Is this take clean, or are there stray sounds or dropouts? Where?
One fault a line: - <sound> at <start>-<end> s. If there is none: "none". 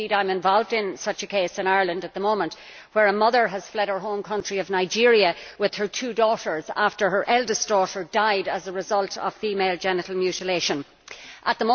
none